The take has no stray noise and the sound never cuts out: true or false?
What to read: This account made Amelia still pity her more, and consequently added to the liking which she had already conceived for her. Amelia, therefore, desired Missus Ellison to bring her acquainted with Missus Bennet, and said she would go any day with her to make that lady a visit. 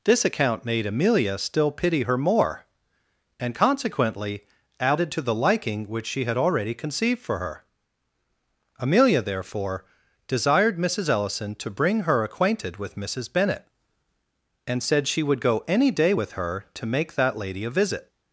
true